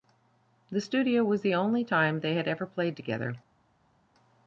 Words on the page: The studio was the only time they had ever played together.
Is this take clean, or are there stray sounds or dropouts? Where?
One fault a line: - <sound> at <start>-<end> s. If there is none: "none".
none